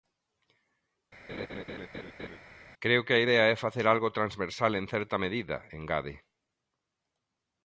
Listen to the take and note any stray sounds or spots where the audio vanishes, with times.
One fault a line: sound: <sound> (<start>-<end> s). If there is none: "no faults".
sound: laugh (1.3-2.4 s)